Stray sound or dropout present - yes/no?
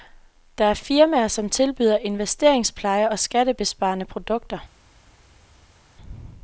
no